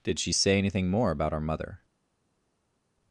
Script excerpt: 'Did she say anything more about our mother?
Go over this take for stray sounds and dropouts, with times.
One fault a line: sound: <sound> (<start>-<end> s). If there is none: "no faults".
no faults